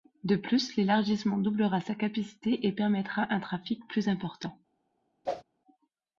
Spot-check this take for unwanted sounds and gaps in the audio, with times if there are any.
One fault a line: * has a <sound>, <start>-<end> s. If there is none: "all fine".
* has a whoosh, 5.3-5.4 s